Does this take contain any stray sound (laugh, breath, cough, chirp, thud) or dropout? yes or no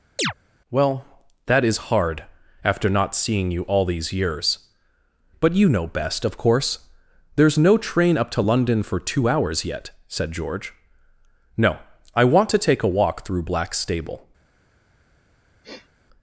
yes